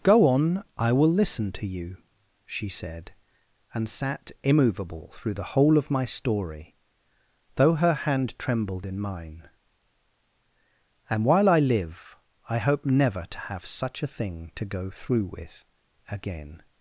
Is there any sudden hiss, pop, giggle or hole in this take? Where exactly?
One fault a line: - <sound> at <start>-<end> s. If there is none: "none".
none